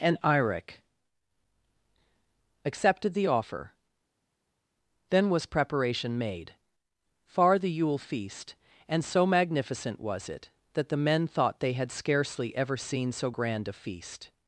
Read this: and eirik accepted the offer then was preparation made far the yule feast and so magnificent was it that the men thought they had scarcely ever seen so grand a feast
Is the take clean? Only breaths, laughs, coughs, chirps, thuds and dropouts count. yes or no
yes